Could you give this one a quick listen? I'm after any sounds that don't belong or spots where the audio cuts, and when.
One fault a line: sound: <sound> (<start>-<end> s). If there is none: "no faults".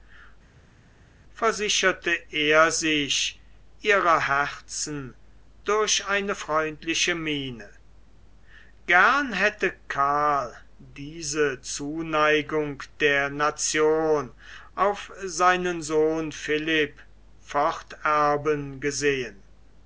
no faults